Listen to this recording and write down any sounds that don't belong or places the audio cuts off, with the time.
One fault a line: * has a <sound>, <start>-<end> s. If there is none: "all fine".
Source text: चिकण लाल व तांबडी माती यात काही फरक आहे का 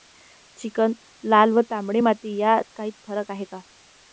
all fine